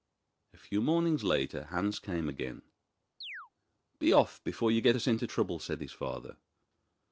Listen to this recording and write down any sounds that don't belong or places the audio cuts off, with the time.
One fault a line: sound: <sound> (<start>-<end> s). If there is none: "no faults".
sound: chirp (3.2-3.5 s)